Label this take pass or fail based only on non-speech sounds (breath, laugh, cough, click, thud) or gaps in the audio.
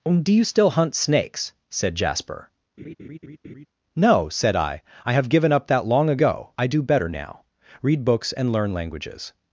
fail